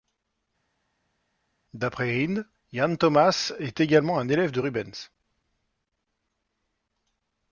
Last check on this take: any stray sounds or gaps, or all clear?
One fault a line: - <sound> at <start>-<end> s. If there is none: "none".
none